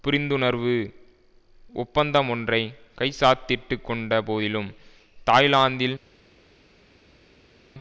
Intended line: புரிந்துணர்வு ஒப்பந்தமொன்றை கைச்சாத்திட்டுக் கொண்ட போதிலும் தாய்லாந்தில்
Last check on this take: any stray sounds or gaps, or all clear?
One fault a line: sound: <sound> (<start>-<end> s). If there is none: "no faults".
no faults